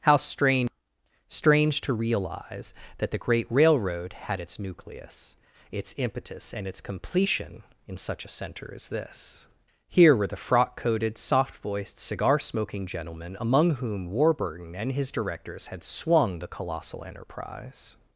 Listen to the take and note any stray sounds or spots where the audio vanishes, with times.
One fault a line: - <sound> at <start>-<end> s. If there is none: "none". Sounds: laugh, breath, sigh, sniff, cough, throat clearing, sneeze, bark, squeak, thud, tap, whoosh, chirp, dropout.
none